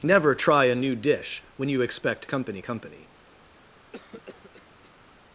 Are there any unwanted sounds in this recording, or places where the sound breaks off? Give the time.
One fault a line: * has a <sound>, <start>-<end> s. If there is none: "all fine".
* has a cough, 3.9-5.1 s